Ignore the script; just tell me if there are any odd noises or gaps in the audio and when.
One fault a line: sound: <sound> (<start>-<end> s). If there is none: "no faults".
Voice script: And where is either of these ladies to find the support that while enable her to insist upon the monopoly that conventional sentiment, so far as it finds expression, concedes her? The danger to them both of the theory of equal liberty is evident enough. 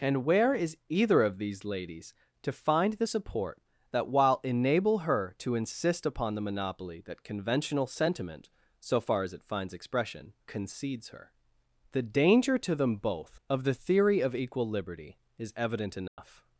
sound: dropout (16.1-16.2 s)